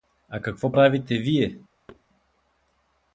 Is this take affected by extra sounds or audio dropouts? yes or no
yes